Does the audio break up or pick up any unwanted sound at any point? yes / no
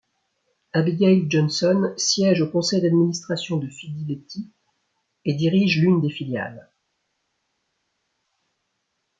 no